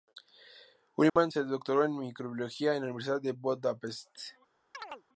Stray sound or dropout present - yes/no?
yes